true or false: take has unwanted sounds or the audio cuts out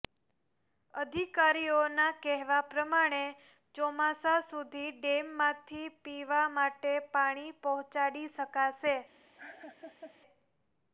true